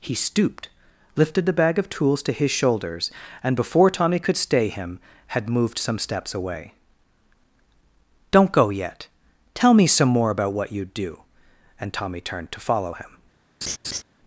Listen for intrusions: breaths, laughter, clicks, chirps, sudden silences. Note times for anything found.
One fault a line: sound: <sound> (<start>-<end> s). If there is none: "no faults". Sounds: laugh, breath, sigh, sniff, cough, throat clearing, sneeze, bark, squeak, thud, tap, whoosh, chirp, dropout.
sound: laugh (13.6-14.0 s)